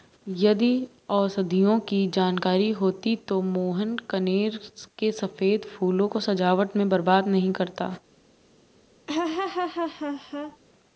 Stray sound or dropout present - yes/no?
yes